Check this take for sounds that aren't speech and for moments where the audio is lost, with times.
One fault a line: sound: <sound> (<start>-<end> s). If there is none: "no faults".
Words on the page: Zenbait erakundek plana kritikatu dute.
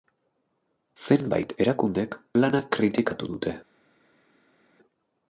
no faults